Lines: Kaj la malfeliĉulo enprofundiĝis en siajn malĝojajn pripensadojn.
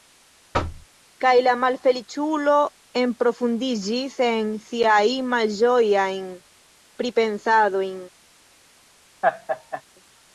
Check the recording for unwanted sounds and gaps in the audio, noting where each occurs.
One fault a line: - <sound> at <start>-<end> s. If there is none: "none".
- thud at 0.5-0.9 s
- laugh at 9.2-9.8 s